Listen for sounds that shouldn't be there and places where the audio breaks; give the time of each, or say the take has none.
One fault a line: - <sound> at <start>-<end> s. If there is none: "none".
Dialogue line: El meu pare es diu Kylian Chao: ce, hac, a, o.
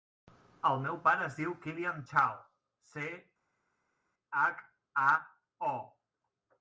none